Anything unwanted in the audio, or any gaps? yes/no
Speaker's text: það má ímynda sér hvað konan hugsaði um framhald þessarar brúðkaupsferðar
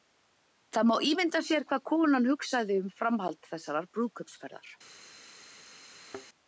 yes